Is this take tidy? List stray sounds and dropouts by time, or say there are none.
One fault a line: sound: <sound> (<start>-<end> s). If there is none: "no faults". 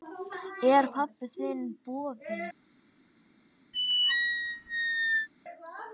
sound: squeak (3.7-5.3 s)